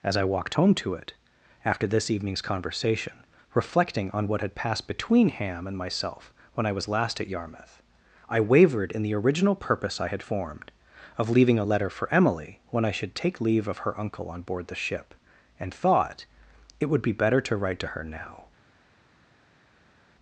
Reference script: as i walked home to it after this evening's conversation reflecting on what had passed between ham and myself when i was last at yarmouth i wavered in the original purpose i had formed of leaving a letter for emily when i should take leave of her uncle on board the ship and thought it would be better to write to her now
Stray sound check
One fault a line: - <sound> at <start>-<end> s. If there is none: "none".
none